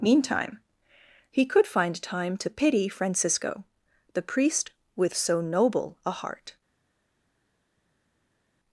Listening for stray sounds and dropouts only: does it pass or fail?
pass